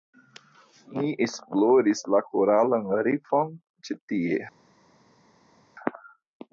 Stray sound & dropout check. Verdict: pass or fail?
pass